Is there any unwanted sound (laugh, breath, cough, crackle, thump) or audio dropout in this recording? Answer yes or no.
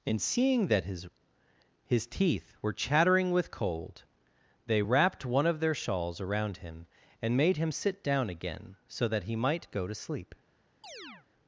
yes